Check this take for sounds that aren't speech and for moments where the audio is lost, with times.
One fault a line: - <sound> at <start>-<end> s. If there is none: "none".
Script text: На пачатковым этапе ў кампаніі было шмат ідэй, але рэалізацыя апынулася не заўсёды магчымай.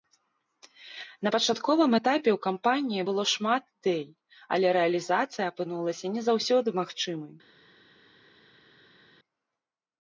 none